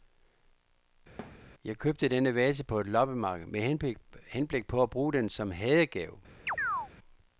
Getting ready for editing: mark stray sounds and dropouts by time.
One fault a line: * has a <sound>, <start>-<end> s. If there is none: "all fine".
* has a thud, 1.2-1.5 s
* has a chirp, 6.5-6.9 s